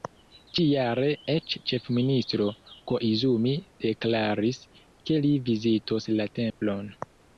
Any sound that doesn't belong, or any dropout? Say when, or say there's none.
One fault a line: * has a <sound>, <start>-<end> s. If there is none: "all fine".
* has a dropout, 6.5-6.6 s